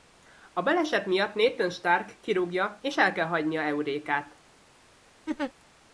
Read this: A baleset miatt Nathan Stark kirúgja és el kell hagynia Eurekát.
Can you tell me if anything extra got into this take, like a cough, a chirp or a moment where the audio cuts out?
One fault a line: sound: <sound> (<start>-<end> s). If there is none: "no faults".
sound: laugh (5.3-5.5 s)